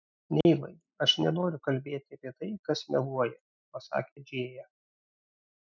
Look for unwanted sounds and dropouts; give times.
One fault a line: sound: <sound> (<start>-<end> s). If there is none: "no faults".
sound: dropout (0.4-0.5 s)